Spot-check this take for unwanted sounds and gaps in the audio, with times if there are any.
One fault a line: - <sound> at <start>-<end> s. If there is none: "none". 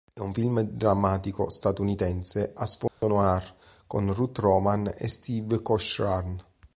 - dropout at 2.9-3.0 s